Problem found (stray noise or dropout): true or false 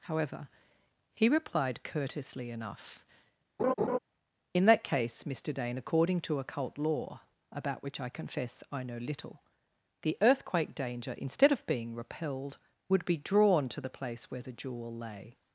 true